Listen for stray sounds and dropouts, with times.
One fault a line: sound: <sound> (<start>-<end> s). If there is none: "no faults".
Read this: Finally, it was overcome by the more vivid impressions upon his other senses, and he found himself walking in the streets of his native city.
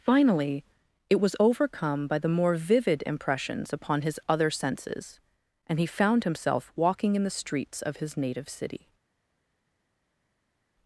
no faults